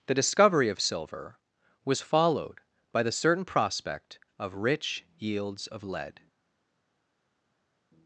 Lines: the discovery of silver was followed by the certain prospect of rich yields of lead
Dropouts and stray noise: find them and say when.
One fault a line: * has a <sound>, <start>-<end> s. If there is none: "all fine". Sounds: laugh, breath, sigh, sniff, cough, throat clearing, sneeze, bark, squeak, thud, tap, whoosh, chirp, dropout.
all fine